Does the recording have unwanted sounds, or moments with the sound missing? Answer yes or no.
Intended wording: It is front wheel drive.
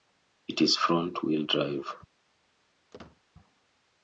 yes